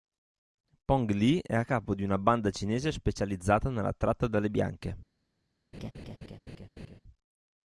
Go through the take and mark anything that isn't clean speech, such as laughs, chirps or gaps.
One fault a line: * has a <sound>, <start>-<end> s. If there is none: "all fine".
* has a laugh, 5.7-7.0 s